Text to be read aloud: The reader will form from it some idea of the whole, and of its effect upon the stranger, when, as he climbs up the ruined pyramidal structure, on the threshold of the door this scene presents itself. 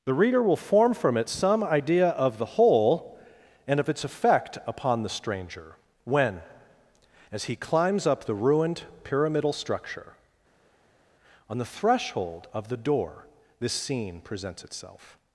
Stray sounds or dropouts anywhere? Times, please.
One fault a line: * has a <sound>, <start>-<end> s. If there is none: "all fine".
all fine